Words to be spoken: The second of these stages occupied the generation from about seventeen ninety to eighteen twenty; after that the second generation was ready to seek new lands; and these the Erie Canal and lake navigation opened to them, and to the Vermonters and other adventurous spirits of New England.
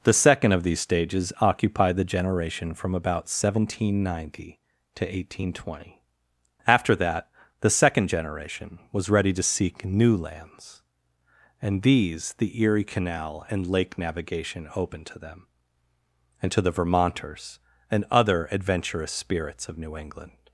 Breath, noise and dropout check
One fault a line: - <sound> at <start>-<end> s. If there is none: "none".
none